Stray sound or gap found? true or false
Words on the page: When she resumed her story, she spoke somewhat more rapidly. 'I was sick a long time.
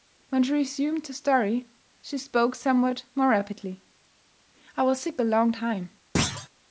true